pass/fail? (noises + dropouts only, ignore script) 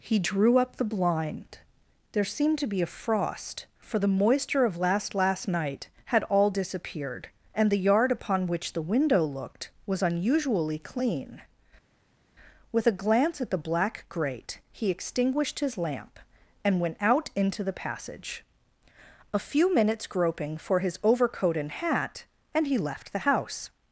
pass